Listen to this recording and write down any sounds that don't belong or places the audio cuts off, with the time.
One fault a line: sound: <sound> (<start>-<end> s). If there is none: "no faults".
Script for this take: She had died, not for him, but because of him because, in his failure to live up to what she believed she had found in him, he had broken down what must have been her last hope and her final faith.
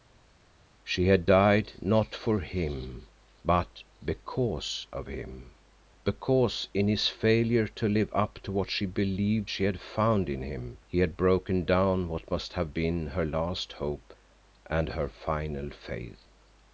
no faults